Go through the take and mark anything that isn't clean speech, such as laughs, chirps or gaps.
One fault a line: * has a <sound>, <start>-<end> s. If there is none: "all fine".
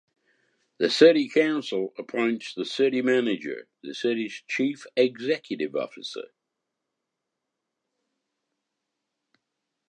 all fine